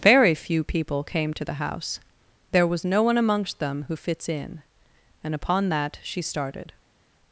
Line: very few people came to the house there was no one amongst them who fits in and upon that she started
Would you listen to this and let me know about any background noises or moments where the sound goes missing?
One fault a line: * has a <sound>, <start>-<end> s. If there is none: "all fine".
all fine